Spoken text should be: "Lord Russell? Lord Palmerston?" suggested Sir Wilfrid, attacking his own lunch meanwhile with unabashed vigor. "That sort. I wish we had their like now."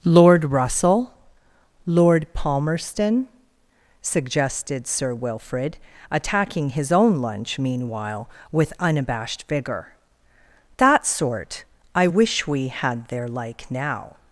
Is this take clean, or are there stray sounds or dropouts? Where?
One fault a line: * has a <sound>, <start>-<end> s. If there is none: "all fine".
all fine